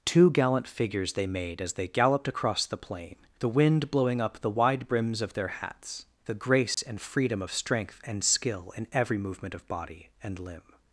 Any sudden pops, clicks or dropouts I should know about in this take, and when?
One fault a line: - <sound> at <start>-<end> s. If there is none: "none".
- dropout at 6.7-6.8 s